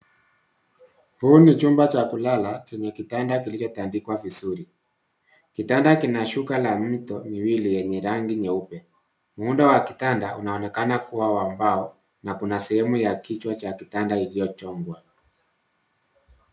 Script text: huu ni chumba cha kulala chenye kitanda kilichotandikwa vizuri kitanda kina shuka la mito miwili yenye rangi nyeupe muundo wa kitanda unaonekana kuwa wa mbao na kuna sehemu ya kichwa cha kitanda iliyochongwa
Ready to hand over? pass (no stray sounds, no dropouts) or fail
pass